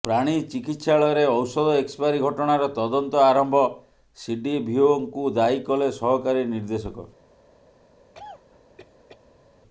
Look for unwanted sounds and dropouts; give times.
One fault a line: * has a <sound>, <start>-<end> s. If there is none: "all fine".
* has a cough, 8.1-9.5 s